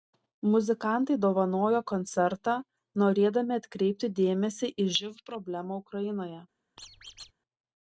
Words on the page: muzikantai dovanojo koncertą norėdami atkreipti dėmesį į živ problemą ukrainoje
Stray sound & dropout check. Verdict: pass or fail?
fail